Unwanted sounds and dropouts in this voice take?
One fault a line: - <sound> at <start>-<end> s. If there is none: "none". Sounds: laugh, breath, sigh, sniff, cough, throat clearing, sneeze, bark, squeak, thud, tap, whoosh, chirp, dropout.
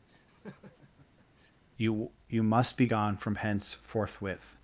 - laugh at 0.1-1.6 s